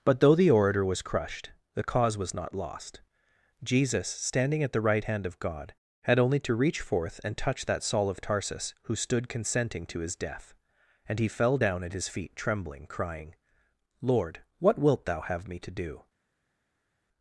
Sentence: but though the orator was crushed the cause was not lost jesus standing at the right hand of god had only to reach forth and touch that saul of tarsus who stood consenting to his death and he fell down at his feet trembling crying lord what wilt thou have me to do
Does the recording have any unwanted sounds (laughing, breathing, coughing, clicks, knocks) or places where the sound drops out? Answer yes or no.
no